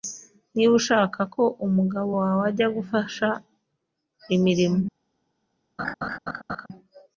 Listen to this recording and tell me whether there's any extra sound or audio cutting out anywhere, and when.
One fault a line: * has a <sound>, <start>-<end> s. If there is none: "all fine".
* has a laugh, 5.8-6.7 s